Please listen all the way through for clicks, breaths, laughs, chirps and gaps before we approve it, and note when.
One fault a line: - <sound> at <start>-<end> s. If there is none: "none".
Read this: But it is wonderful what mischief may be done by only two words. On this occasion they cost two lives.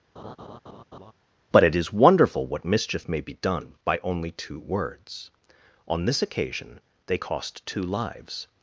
- laugh at 0.2-1.1 s